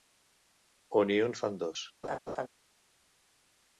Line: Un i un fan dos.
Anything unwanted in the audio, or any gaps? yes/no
yes